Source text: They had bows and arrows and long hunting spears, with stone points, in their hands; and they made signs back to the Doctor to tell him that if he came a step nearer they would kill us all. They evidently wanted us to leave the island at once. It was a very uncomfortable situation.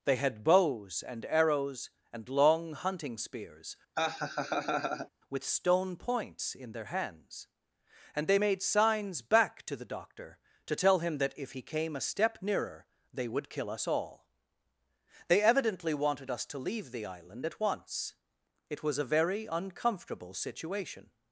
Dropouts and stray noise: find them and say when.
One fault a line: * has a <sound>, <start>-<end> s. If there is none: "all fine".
* has a laugh, 3.9-5.1 s